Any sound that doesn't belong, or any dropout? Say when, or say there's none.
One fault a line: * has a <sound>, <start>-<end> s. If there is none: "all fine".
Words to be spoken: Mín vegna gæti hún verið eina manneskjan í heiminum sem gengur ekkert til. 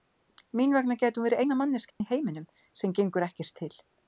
* has a dropout, 1.9-2.0 s